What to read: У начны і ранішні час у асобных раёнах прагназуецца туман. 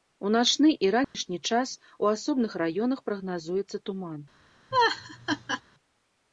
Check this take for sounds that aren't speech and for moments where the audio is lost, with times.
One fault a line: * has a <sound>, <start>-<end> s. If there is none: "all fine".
* has a dropout, 1.0-1.1 s
* has a laugh, 4.7-5.6 s